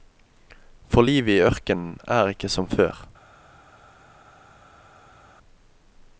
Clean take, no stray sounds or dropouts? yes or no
yes